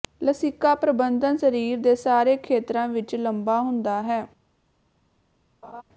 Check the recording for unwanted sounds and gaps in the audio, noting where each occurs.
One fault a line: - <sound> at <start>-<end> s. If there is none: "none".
- laugh at 5.6-5.8 s